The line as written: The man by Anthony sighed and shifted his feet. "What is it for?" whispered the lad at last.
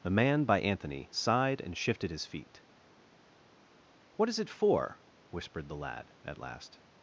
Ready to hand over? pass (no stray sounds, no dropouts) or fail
pass